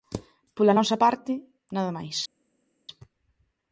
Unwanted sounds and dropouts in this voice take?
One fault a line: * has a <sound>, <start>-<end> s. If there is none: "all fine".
all fine